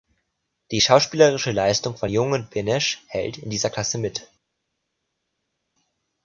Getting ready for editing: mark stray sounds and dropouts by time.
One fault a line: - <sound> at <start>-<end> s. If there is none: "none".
none